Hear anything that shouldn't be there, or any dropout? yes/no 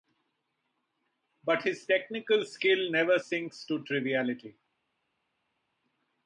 no